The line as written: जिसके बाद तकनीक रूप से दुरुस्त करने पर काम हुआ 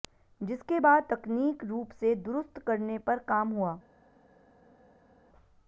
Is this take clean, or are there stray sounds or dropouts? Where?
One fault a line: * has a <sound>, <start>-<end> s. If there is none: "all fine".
all fine